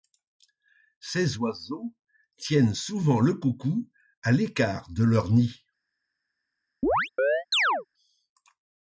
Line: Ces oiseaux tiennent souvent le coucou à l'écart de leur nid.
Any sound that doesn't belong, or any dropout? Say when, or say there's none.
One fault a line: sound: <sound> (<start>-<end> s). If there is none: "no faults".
sound: chirp (6.8-7.9 s)